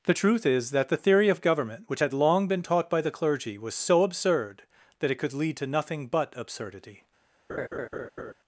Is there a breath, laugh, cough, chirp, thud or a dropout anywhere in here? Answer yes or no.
yes